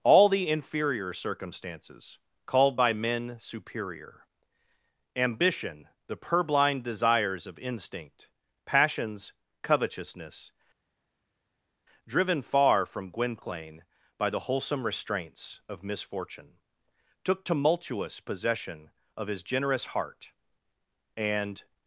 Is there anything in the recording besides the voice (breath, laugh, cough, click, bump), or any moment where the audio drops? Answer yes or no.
no